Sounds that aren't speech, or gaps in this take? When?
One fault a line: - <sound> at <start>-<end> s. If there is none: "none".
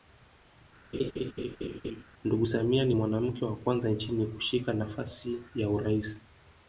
- laugh at 0.9-2.0 s